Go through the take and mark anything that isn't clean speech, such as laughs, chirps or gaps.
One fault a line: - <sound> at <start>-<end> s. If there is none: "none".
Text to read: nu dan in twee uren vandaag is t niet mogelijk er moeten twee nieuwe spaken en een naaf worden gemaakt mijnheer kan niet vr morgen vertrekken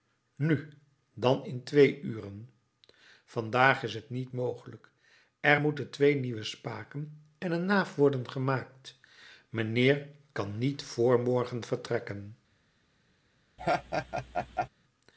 - laugh at 13.6-14.7 s